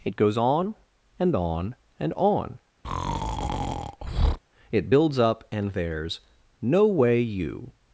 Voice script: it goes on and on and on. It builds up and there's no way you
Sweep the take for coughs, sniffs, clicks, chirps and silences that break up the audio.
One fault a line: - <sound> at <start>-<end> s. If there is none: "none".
- breath at 2.8-4.4 s